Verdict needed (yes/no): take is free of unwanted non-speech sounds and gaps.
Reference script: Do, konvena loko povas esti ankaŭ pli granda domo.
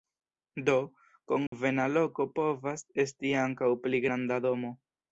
no